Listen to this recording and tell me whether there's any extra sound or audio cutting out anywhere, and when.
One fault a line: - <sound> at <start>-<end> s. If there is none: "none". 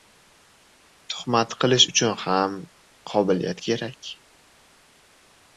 none